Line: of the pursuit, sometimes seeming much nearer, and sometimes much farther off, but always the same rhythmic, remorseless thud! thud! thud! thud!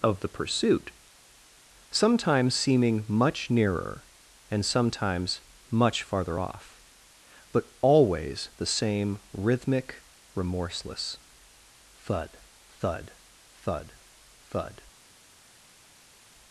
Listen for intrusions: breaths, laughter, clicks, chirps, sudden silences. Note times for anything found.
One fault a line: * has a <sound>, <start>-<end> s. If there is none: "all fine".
all fine